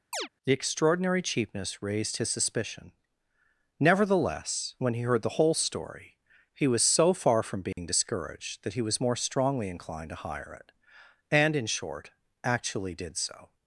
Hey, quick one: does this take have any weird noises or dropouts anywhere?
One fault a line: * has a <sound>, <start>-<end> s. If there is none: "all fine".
* has a chirp, 0.1-0.3 s
* has a dropout, 7.7-7.8 s